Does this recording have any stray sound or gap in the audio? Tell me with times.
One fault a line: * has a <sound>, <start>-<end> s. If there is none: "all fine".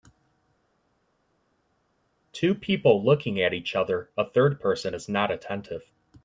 all fine